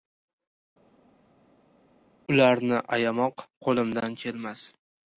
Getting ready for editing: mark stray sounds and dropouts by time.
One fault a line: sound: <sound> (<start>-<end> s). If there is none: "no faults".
no faults